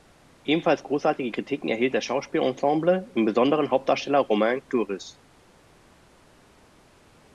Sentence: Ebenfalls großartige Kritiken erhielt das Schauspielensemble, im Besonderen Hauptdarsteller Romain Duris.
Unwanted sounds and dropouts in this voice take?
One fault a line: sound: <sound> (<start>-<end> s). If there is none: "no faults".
no faults